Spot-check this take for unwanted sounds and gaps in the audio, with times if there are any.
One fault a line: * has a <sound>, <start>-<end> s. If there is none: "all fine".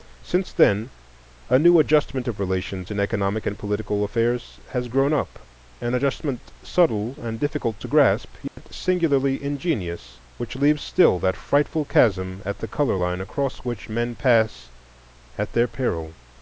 * has a dropout, 8.5-8.6 s